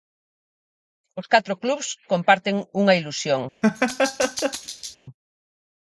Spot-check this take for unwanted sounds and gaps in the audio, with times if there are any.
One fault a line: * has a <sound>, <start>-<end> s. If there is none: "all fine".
* has a laugh, 3.6-5.0 s